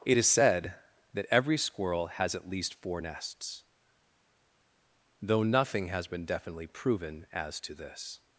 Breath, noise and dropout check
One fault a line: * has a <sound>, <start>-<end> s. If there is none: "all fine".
all fine